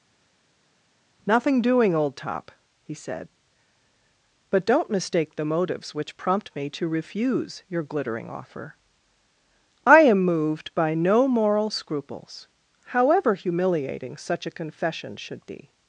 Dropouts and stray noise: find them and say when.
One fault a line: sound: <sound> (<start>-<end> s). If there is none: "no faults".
no faults